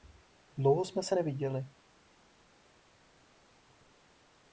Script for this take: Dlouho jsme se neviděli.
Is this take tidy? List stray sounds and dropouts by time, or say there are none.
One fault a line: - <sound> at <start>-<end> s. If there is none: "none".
none